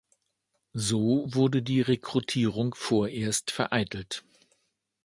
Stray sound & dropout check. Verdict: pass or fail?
pass